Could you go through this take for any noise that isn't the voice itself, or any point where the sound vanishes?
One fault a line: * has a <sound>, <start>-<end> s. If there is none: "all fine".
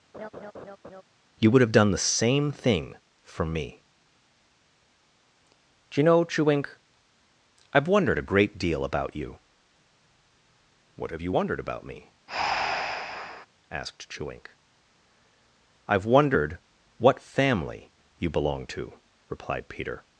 * has a laugh, 0.1-1.0 s
* has a breath, 12.3-13.5 s